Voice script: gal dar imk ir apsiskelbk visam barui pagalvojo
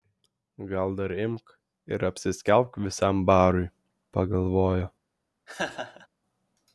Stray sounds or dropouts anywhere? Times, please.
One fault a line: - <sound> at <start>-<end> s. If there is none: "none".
- laugh at 5.5-6.1 s